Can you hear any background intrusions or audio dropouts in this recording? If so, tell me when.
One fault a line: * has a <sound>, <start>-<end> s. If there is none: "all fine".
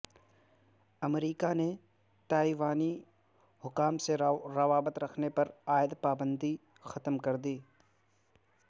all fine